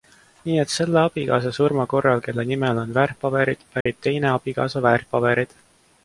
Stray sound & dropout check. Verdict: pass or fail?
fail